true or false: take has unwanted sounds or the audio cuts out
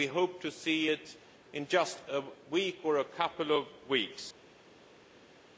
false